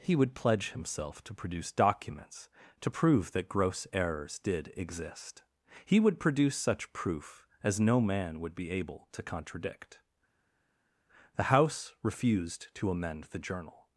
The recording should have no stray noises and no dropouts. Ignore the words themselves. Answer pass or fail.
pass